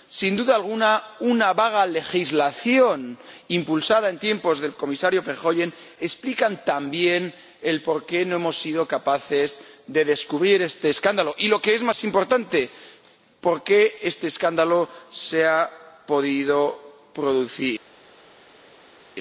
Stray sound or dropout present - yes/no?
no